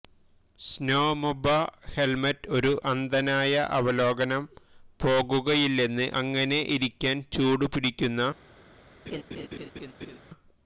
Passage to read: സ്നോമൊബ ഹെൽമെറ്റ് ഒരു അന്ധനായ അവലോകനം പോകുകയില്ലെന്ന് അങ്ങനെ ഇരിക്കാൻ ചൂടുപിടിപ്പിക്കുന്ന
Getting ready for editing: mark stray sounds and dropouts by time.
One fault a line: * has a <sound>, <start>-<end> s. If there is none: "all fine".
* has a laugh, 9.1-10.2 s